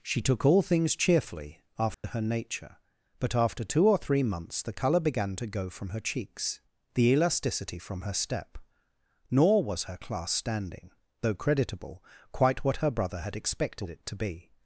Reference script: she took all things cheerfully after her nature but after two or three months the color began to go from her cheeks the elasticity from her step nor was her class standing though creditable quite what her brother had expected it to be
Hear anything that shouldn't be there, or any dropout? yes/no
yes